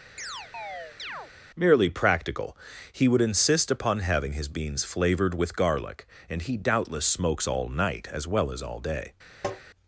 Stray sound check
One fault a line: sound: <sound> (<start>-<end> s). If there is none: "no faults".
sound: chirp (0.2-1.3 s)
sound: tap (9.4-9.6 s)